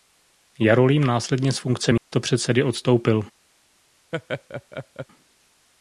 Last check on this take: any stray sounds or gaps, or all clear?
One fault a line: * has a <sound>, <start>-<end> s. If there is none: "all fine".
* has a dropout, 2.0-2.1 s
* has a laugh, 4.1-5.1 s